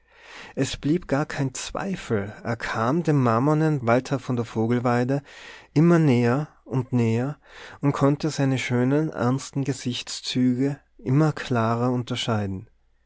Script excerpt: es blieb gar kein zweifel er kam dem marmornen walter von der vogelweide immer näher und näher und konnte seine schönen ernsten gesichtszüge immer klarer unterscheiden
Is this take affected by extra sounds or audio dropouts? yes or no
no